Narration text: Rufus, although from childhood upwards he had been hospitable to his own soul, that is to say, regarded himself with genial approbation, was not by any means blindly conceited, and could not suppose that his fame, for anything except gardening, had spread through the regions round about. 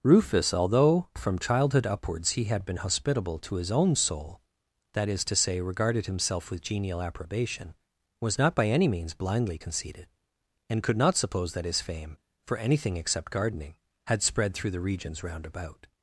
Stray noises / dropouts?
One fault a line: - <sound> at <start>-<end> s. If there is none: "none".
none